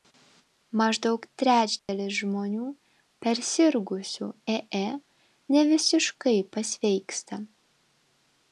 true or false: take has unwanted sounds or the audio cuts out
true